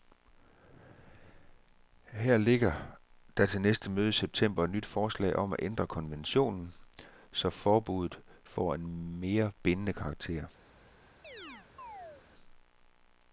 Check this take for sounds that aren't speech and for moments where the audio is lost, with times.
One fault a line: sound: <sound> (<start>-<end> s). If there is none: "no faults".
sound: chirp (11.2-12.3 s)